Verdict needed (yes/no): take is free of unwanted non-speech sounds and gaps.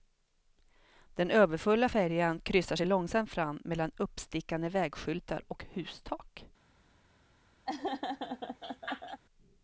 no